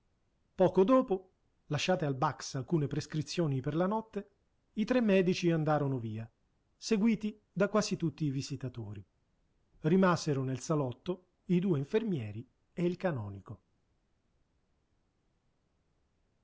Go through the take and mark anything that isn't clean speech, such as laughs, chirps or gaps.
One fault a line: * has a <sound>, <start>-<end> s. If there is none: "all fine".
all fine